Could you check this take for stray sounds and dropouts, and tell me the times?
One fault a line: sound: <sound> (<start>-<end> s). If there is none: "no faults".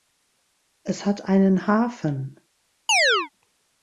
sound: chirp (2.9-3.3 s)